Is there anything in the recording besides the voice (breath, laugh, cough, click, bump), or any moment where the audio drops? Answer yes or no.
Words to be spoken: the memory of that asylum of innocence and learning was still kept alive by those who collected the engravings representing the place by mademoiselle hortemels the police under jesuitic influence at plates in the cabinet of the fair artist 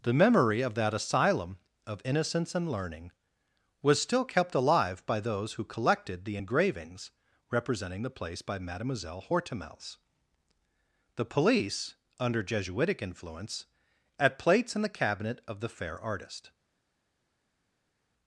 no